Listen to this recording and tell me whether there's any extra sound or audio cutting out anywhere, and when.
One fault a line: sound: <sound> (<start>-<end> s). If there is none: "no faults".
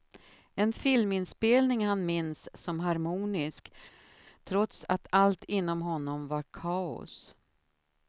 no faults